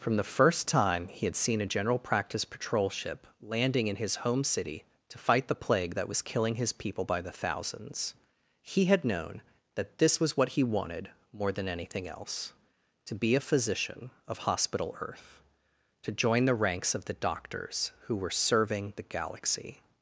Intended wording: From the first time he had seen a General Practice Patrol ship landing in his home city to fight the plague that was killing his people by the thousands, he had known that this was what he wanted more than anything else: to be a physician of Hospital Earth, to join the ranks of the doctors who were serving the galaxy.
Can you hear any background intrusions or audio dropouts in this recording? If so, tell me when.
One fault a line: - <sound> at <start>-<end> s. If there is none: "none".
none